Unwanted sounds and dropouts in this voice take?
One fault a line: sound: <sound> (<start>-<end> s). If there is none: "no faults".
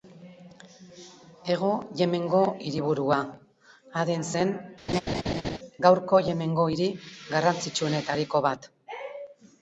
sound: laugh (4.9-5.6 s)